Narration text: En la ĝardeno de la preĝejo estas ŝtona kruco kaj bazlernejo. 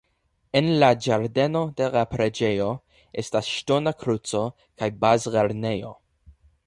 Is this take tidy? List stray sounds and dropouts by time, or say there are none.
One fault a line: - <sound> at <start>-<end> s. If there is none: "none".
none